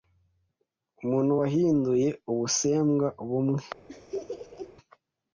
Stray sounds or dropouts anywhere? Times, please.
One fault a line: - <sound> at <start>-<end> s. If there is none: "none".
- laugh at 3.9-4.7 s